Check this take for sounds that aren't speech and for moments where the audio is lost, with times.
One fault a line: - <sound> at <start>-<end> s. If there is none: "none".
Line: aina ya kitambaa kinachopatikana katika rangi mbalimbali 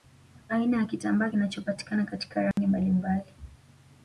- dropout at 2.5-2.6 s